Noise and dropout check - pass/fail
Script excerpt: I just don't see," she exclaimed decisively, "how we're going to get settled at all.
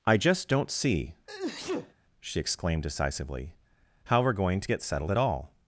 fail